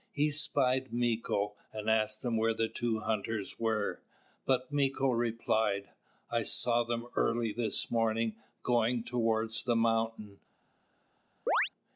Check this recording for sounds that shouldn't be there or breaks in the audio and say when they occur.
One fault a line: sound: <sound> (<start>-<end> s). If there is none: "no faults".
sound: chirp (11.5-11.7 s)